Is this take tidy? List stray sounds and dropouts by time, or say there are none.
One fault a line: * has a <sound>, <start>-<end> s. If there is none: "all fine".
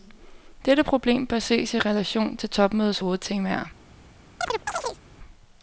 * has a chirp, 4.4-5.0 s